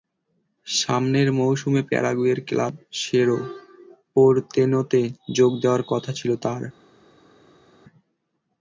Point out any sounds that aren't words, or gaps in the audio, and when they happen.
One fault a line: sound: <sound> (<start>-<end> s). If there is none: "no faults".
no faults